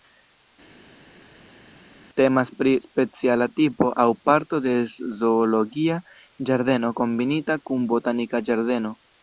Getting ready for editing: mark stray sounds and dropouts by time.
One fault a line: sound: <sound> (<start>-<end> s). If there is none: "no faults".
no faults